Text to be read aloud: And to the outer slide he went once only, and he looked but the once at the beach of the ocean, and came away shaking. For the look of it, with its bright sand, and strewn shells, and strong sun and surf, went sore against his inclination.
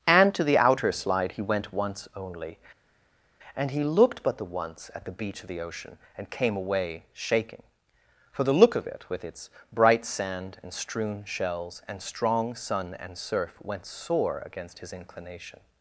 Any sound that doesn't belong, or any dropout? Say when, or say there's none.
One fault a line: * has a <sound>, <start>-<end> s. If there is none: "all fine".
all fine